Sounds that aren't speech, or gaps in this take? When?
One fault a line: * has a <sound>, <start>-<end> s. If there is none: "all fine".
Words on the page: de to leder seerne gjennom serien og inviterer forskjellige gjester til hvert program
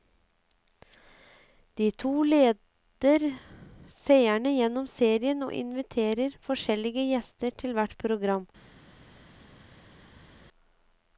all fine